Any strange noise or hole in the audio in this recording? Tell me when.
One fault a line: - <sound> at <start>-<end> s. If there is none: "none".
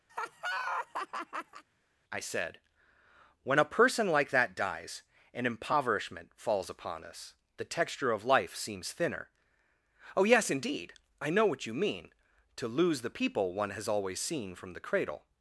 - laugh at 0.1-1.6 s